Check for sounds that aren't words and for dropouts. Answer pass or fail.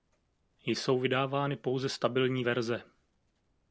pass